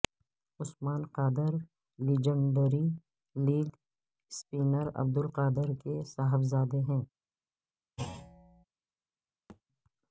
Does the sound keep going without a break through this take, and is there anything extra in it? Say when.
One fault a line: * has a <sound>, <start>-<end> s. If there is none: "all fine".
* has a thud, 8.0-8.6 s
* has a thud, 9.5-9.6 s